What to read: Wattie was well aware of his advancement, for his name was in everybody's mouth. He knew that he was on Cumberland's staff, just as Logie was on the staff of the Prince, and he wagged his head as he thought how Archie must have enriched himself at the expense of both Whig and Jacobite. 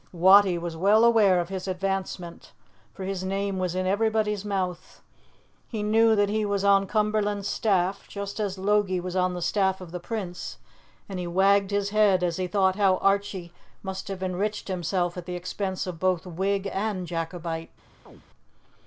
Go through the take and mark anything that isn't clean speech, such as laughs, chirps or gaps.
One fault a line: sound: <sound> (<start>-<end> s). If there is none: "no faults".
sound: chirp (18.1-18.2 s)